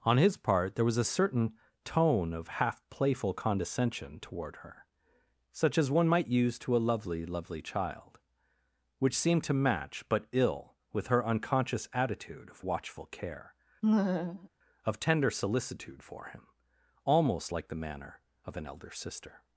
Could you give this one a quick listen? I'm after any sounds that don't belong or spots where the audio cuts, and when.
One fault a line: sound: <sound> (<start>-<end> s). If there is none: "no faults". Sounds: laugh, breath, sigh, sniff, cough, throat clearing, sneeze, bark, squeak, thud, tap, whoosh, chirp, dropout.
sound: laugh (13.8-14.5 s)